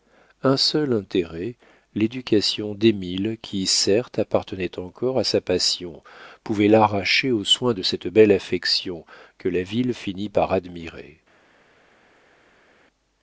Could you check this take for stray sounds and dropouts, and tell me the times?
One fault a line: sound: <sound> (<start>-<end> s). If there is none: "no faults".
no faults